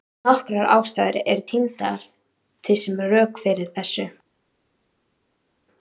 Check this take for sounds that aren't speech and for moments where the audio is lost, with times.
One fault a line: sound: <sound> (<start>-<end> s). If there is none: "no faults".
no faults